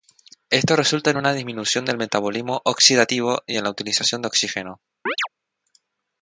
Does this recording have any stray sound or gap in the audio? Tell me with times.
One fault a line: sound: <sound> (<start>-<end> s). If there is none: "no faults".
sound: chirp (5.1-5.3 s)